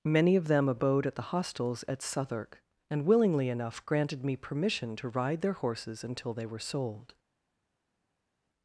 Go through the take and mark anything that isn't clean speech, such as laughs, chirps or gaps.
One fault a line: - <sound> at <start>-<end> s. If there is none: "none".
none